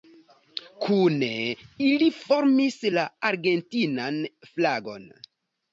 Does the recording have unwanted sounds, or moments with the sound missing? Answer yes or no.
no